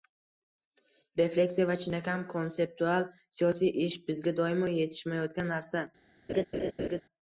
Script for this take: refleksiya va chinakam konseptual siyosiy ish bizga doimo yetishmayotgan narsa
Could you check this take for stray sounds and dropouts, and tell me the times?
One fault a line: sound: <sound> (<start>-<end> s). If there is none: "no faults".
sound: laugh (6.3-7.0 s)